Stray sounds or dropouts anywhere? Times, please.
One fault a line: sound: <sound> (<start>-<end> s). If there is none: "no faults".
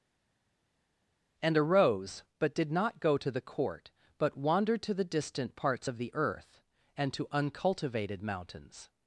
no faults